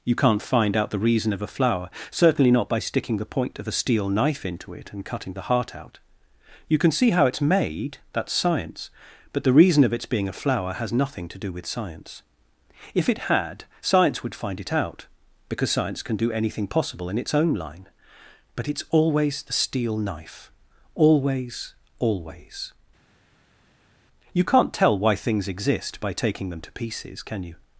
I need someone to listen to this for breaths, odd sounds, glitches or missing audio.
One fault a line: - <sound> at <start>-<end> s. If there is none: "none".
none